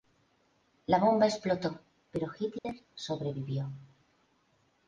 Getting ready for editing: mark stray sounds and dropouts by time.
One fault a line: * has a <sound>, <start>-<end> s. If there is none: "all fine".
* has a dropout, 2.6-2.6 s